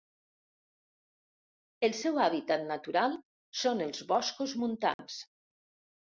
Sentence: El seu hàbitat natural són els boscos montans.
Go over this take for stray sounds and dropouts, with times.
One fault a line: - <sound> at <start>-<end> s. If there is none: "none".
- dropout at 4.9-5.0 s